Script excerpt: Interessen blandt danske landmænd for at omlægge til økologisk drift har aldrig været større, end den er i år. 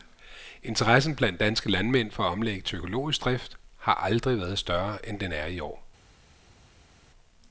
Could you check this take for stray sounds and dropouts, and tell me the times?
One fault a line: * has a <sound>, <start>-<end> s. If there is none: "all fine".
all fine